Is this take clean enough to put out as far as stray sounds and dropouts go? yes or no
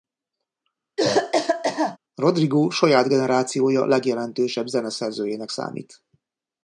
no